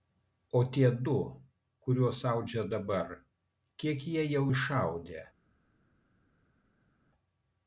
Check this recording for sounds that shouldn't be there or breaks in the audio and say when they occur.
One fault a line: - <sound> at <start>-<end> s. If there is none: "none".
none